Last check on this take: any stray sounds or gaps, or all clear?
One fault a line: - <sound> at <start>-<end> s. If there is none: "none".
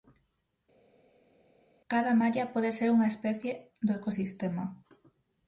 none